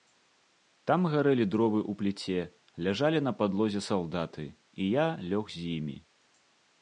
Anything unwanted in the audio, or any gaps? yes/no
no